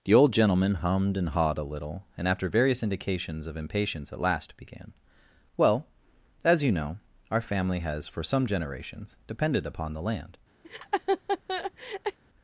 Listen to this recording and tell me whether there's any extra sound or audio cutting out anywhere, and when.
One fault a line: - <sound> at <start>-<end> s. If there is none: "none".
- laugh at 10.6-12.2 s